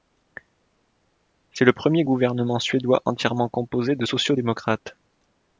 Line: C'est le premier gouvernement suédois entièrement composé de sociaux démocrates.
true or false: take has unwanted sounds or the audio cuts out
false